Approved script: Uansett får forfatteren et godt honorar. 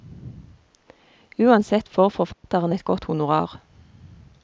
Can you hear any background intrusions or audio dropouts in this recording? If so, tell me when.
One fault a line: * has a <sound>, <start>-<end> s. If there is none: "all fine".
* has a dropout, 2.3-2.4 s